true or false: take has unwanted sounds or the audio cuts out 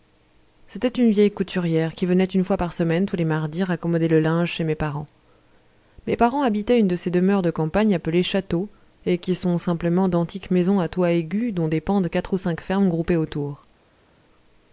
false